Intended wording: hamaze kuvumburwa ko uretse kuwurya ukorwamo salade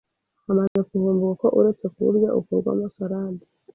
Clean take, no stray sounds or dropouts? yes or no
no